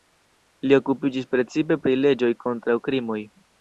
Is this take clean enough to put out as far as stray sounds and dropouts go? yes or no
yes